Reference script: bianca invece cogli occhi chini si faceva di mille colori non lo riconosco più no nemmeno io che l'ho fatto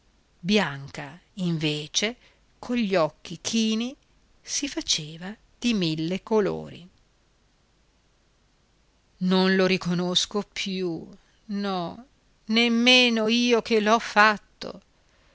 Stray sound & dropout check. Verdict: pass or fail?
pass